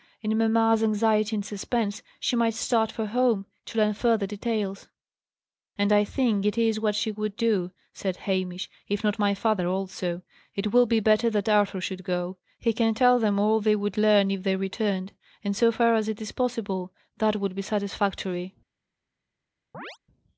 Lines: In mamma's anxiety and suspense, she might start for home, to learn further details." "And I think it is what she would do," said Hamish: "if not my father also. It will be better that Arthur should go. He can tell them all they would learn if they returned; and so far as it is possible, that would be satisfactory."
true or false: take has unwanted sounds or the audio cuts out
true